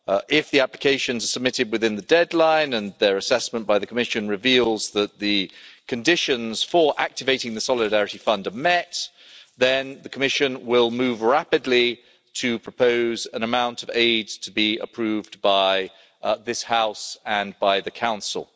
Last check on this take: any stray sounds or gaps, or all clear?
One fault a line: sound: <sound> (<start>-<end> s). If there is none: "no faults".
no faults